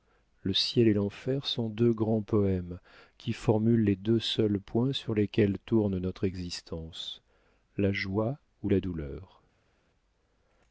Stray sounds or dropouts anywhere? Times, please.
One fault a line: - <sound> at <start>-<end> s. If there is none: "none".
none